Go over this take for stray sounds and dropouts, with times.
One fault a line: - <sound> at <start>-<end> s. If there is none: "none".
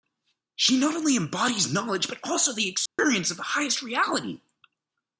- dropout at 2.9-3.0 s